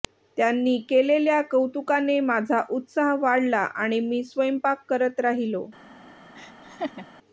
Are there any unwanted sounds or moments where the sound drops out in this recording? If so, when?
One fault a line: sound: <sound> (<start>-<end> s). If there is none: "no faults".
sound: laugh (6.3-7.1 s)